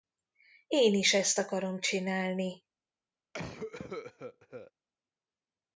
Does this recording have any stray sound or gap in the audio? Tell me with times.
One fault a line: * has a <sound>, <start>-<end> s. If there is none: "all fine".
* has a cough, 3.3-4.7 s